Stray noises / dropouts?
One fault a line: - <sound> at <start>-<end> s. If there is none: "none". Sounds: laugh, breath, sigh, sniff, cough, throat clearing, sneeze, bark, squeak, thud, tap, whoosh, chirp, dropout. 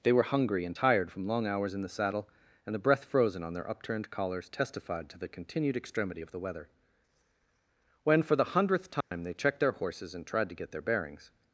- dropout at 9.0-9.1 s